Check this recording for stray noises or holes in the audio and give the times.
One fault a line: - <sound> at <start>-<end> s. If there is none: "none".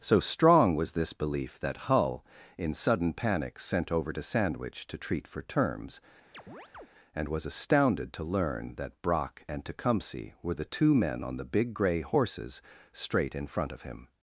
- chirp at 6.3-6.9 s